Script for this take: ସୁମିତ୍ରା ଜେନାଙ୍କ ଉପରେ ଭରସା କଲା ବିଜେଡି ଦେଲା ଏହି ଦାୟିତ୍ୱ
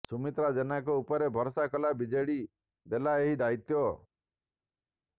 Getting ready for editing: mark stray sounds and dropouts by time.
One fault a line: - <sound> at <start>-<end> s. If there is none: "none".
none